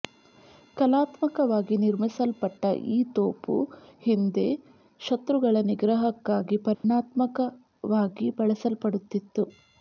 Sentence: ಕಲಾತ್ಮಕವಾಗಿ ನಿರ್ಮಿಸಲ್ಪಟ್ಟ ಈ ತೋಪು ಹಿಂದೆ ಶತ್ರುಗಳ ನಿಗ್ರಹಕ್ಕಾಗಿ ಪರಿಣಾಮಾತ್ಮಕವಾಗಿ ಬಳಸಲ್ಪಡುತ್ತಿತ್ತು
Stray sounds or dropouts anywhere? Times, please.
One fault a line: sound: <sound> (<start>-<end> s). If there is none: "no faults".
sound: dropout (6.7-6.8 s)